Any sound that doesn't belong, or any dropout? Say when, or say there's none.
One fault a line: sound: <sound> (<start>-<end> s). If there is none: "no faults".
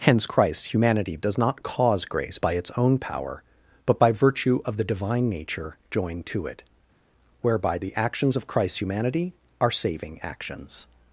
no faults